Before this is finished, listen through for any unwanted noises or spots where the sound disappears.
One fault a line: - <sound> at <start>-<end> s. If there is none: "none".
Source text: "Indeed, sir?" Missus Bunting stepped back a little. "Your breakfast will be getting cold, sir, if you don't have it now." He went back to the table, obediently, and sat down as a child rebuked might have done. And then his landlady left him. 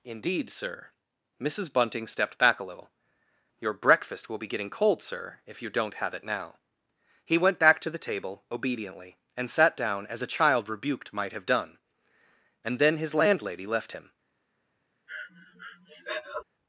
- breath at 15.1-16.4 s